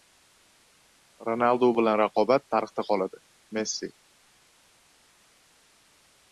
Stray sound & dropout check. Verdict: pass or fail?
pass